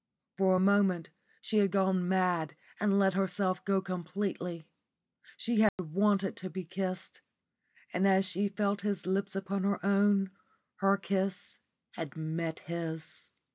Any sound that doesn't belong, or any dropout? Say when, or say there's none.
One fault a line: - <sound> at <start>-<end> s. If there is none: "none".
- dropout at 5.7-5.8 s